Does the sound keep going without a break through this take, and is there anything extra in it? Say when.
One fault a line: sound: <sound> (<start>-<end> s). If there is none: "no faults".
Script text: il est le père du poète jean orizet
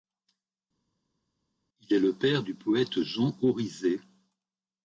no faults